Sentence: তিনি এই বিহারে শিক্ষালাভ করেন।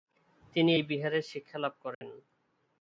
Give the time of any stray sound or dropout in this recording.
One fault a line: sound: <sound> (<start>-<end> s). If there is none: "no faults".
sound: dropout (1.9-2.0 s)